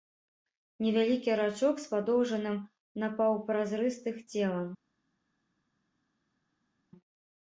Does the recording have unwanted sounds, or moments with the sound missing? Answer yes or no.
no